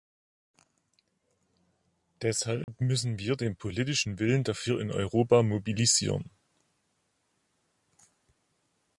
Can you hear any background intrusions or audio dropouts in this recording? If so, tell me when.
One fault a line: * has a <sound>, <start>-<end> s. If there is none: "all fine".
* has a dropout, 2.6-2.7 s